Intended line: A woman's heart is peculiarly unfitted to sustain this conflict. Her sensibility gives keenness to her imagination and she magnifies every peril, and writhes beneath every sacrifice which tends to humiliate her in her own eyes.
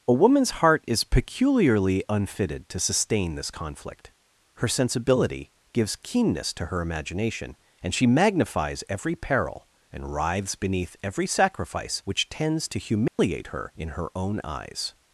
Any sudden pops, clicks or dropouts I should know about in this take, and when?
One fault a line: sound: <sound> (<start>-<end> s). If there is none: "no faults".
sound: dropout (13.1-13.2 s)